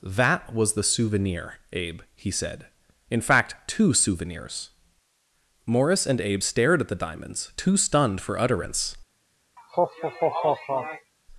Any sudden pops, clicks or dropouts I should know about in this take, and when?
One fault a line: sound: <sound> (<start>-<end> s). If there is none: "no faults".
sound: laugh (9.6-11.1 s)